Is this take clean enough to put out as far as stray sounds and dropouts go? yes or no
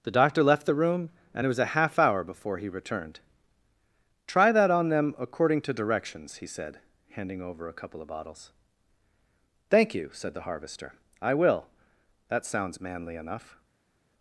yes